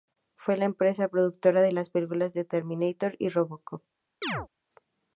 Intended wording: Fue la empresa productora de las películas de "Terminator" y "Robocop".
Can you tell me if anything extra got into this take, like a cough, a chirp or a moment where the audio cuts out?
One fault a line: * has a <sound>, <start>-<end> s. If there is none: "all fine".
* has a chirp, 4.2-4.5 s